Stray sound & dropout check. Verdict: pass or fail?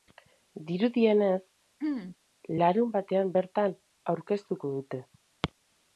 fail